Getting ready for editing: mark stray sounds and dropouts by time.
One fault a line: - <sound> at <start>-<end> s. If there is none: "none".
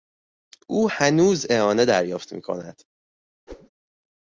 - whoosh at 3.5-3.7 s